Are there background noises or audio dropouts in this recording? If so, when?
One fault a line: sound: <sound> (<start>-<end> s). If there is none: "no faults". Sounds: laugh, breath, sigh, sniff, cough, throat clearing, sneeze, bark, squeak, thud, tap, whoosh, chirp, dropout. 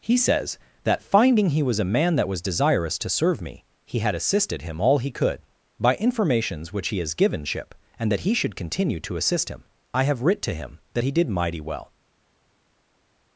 no faults